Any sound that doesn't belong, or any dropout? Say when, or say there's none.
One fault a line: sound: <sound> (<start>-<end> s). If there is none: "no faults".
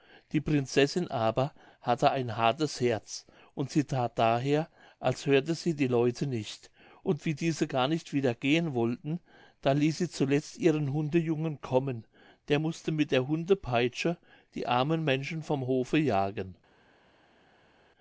no faults